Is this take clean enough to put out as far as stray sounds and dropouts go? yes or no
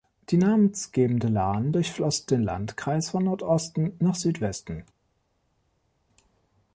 yes